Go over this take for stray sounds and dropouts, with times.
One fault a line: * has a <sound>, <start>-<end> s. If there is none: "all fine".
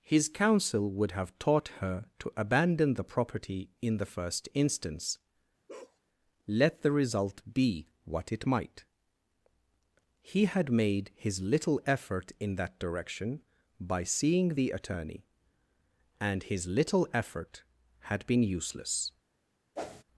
* has a bark, 5.7-6.0 s
* has a whoosh, 19.8-20.0 s